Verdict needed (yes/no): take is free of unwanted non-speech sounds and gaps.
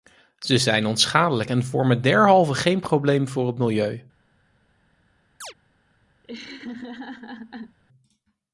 no